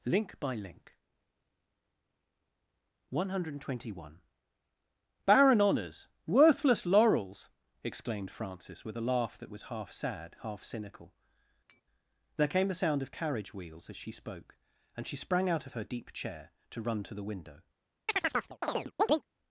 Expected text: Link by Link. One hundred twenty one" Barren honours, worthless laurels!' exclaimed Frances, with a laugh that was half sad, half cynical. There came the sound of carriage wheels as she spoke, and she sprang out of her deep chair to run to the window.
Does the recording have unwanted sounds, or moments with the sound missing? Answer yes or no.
yes